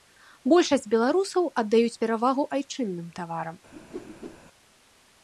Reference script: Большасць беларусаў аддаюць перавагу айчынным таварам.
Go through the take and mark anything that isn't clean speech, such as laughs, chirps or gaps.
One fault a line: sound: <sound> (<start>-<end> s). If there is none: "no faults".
sound: whoosh (3.7-4.4 s)